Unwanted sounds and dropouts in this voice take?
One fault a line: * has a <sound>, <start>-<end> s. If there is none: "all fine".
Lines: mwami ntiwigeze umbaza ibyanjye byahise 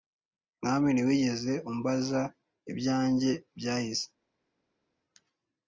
all fine